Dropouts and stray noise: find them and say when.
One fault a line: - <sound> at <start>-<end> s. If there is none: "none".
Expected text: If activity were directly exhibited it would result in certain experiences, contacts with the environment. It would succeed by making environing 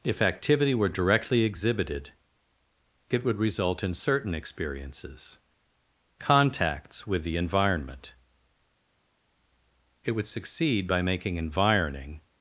none